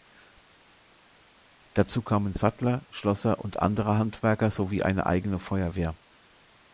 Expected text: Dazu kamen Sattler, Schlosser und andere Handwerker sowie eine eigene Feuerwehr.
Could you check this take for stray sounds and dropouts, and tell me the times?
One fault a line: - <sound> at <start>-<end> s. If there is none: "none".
none